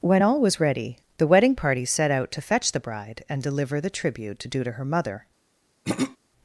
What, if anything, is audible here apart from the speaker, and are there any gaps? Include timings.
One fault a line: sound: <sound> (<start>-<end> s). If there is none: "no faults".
sound: throat clearing (5.8-6.2 s)